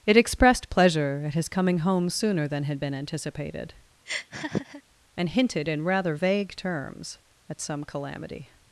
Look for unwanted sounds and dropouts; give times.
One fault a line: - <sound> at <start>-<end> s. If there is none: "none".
- laugh at 4.1-4.8 s